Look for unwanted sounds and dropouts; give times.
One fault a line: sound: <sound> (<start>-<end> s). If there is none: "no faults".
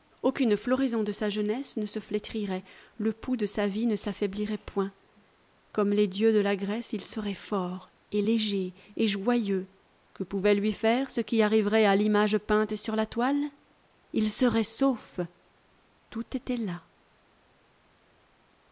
no faults